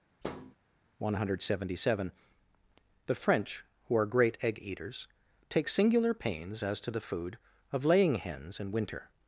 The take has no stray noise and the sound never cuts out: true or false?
false